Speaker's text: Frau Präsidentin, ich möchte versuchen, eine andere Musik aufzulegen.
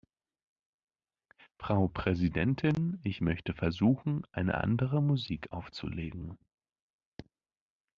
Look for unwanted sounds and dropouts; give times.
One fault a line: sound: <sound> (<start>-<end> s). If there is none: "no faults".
no faults